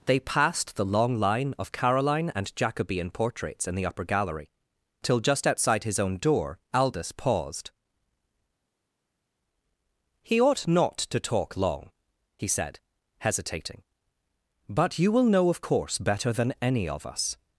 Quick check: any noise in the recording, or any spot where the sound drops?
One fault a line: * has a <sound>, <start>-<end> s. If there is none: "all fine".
all fine